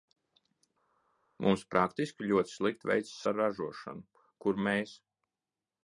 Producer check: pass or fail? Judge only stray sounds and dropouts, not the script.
pass